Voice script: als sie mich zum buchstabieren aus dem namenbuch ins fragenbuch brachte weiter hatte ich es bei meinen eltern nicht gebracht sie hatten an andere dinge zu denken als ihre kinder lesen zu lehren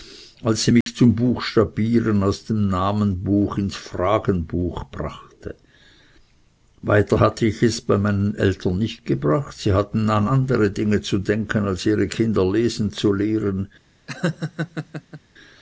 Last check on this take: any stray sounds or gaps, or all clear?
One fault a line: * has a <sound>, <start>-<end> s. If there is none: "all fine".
* has a dropout, 0.8-0.9 s
* has a laugh, 14.1-15.2 s